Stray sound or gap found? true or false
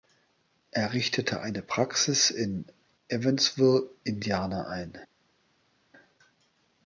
false